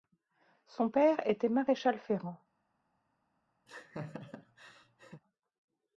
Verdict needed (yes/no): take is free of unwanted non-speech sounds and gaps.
no